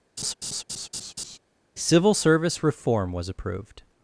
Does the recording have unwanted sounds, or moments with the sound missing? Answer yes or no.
yes